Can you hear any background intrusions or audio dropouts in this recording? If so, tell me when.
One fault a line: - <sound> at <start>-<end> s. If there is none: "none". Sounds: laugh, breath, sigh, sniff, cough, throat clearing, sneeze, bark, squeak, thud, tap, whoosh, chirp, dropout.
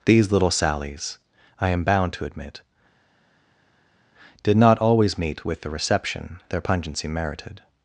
none